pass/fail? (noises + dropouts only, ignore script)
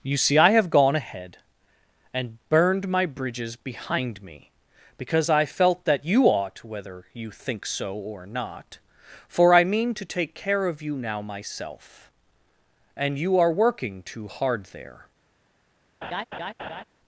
fail